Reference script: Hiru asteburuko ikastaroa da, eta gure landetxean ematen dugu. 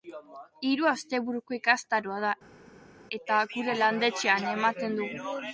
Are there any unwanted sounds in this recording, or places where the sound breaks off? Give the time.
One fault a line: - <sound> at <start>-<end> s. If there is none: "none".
none